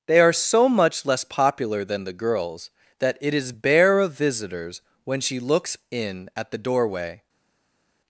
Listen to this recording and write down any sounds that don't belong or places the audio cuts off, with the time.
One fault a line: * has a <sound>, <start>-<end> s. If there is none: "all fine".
all fine